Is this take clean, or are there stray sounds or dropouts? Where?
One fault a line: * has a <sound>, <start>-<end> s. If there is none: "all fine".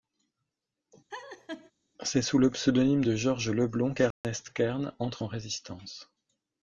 * has a laugh, 1.1-1.7 s
* has a dropout, 4.1-4.2 s